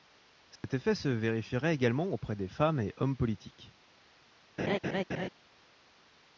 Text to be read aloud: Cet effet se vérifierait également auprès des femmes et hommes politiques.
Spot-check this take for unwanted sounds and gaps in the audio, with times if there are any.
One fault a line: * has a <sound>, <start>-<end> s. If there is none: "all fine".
* has a dropout, 0.6-0.6 s
* has a laugh, 4.6-5.3 s